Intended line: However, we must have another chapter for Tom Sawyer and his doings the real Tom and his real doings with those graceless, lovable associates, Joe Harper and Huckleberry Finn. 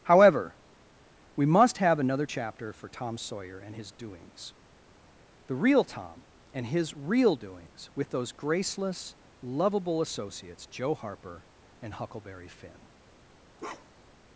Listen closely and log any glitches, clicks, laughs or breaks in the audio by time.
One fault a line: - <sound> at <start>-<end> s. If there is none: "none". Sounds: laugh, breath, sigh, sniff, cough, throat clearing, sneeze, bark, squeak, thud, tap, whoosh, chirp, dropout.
- bark at 13.6-14.2 s